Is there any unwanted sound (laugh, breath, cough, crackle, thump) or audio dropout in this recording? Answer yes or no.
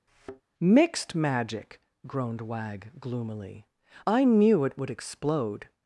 yes